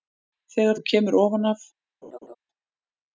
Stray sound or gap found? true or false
true